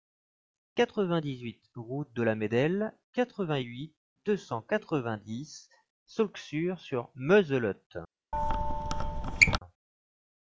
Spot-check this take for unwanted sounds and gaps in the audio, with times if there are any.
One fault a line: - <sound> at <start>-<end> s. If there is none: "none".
- squeak at 8.3-9.6 s